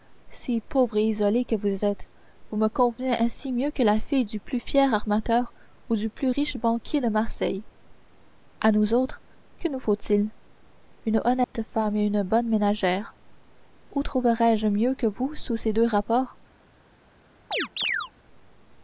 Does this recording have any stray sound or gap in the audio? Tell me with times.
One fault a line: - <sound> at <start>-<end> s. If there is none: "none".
- dropout at 11.4-11.5 s
- chirp at 17.5-18.1 s